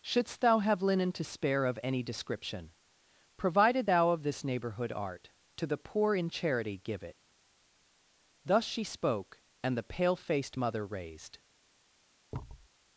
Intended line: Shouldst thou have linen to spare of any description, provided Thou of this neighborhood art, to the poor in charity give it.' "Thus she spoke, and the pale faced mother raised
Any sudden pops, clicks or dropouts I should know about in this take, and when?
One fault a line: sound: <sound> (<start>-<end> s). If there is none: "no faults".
sound: thud (12.3-12.7 s)